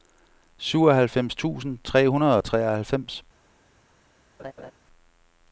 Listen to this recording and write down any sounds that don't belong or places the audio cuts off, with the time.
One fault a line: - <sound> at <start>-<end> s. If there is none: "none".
- laugh at 4.4-4.7 s